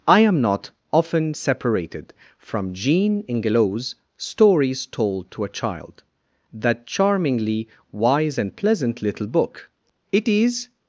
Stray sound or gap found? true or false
false